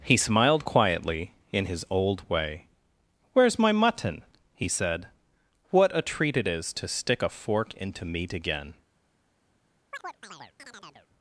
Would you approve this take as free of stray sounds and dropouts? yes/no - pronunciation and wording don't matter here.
no